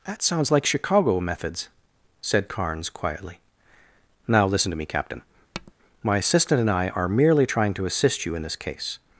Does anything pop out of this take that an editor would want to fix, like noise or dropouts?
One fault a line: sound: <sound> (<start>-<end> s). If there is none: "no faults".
sound: tap (5.5-5.7 s)